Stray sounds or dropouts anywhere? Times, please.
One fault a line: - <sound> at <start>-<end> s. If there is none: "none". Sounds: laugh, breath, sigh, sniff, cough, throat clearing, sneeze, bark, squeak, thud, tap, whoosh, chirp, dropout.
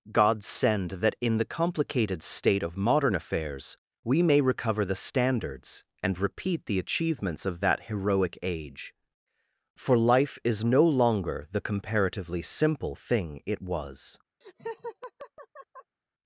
- laugh at 14.4-16.0 s